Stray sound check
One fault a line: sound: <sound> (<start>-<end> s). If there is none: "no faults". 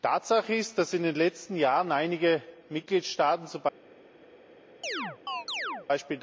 sound: chirp (4.8-5.9 s)